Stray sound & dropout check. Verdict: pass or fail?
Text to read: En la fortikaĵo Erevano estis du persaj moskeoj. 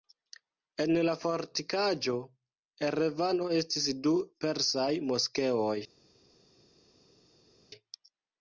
pass